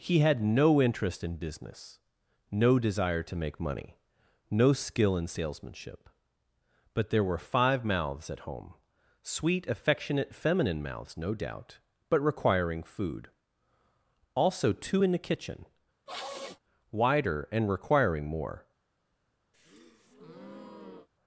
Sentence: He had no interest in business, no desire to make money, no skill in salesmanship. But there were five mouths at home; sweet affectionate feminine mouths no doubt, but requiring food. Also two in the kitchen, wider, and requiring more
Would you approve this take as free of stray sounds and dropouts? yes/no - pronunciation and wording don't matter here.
no